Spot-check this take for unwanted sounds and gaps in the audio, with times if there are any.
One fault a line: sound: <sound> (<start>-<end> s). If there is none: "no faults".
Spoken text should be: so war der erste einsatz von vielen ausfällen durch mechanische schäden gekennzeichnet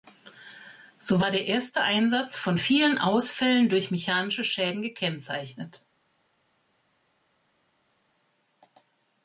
no faults